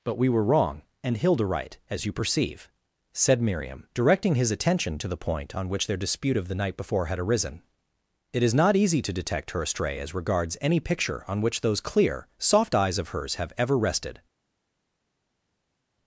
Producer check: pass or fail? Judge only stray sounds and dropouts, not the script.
pass